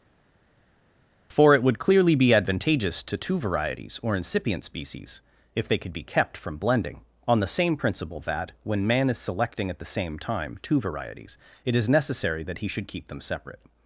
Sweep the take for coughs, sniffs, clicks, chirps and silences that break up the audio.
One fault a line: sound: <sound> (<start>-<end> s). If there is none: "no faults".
no faults